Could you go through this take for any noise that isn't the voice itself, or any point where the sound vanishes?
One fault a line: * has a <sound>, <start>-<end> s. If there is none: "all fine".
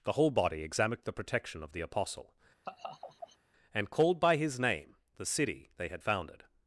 * has a laugh, 2.6-3.4 s